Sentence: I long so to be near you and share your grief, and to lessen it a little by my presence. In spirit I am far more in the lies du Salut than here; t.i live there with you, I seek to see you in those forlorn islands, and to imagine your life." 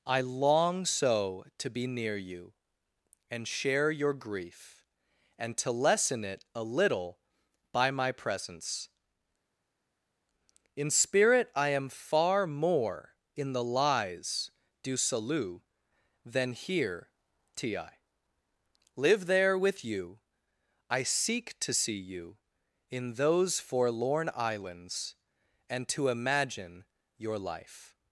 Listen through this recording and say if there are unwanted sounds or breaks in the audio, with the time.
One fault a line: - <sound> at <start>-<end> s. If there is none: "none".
none